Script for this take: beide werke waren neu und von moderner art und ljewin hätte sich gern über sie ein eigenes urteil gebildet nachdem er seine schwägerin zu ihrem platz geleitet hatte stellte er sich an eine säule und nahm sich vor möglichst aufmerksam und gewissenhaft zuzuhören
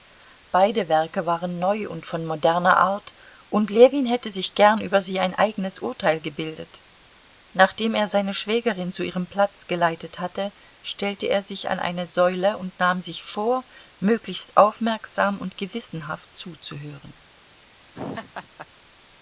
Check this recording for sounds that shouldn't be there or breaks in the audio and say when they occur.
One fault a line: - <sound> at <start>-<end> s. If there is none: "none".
- laugh at 17.9-18.7 s